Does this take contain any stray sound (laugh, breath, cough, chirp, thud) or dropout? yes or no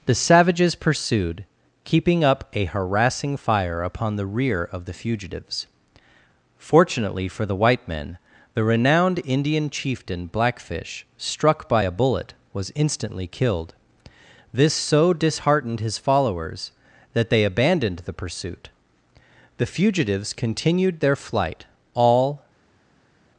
no